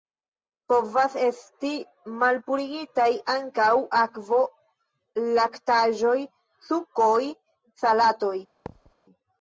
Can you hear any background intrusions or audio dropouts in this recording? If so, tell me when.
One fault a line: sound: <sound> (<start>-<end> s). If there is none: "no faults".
sound: thud (8.7-8.9 s)